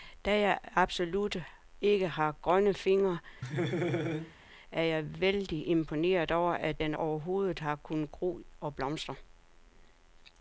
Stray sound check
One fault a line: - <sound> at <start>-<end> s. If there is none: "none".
- laugh at 3.4-4.3 s